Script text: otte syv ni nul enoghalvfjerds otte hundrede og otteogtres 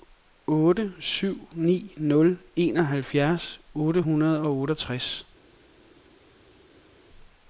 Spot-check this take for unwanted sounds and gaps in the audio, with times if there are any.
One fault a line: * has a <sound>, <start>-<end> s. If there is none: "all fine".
all fine